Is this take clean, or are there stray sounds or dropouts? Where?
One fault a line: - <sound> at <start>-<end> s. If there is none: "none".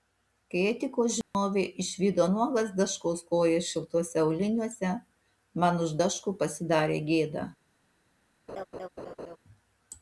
- dropout at 1.2-1.3 s
- laugh at 8.5-9.4 s